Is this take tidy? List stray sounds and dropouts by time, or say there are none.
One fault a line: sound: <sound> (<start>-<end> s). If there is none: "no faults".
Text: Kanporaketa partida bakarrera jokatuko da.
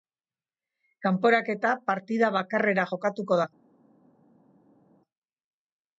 no faults